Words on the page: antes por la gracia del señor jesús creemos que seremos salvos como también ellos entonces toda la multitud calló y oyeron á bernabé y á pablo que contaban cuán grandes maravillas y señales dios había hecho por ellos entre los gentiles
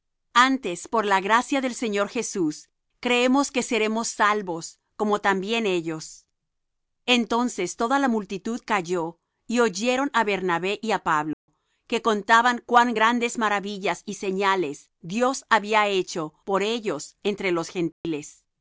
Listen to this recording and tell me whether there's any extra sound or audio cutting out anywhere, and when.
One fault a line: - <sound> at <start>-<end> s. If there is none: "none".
- dropout at 11.3-11.5 s
- dropout at 17.9-18.0 s